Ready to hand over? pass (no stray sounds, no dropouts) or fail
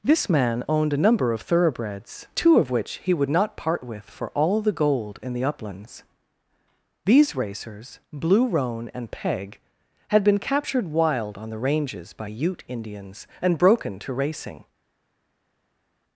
pass